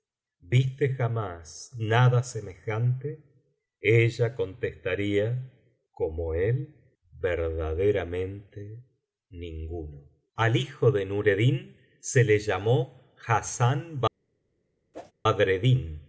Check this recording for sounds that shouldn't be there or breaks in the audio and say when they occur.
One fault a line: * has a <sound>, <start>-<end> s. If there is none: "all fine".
* has a whoosh, 14.9-15.1 s